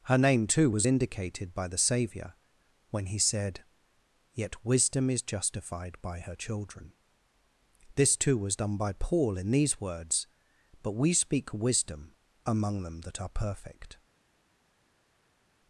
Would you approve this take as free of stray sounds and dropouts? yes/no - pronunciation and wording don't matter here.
yes